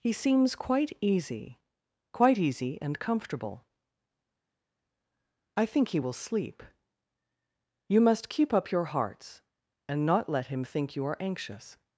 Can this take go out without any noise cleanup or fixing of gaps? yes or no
yes